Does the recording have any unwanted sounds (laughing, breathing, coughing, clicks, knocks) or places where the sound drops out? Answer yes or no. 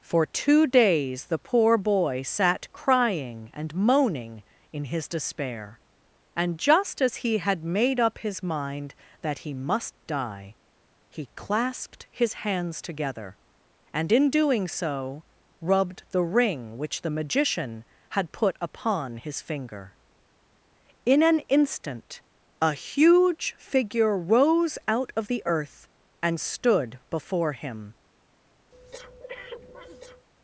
yes